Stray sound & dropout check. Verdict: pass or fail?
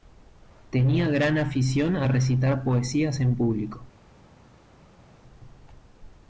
pass